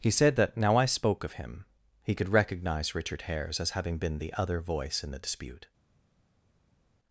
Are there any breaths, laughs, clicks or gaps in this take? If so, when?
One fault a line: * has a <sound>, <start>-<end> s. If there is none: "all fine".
all fine